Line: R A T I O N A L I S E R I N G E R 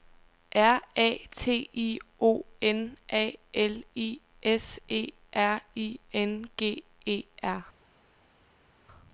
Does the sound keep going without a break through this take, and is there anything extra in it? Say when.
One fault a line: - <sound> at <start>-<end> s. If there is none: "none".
none